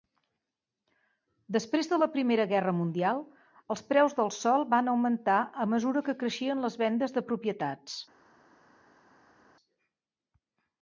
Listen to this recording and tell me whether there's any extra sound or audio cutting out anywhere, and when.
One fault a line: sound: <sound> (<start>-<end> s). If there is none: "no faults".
no faults